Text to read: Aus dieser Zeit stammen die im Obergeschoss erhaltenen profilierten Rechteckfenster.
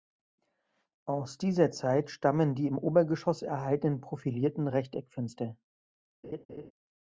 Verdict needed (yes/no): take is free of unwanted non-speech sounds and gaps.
no